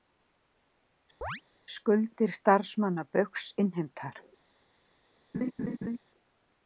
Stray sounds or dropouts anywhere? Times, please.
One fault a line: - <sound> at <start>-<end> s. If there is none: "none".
- chirp at 1.2-1.4 s
- laugh at 5.3-6.0 s